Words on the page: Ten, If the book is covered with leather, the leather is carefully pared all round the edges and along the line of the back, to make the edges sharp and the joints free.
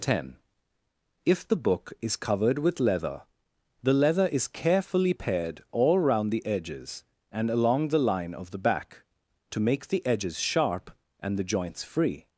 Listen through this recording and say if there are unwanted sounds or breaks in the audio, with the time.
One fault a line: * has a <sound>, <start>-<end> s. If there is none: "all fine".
all fine